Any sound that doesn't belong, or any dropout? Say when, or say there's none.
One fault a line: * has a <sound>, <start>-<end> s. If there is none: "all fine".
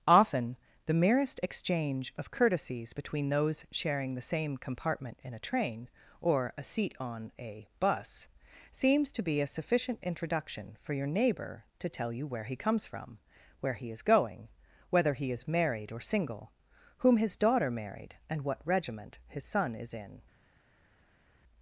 all fine